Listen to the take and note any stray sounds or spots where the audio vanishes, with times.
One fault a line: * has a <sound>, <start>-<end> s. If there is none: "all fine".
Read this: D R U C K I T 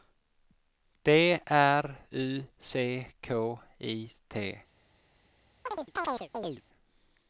* has a chirp, 5.7-6.6 s